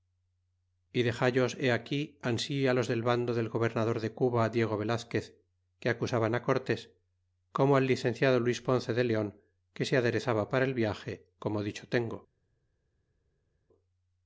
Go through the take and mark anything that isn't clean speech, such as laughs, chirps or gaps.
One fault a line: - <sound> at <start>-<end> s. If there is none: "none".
none